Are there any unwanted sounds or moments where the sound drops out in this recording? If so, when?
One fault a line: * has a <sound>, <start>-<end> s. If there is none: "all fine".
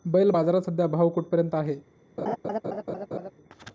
* has a laugh, 2.2-3.3 s